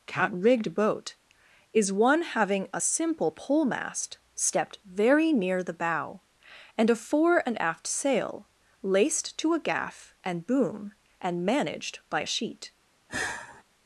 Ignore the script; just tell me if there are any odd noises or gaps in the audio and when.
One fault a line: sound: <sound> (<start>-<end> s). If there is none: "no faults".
sound: sigh (13.1-13.6 s)